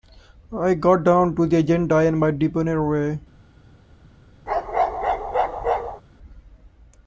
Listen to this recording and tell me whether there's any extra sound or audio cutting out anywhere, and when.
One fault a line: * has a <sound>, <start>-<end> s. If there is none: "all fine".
* has a bark, 4.5-6.0 s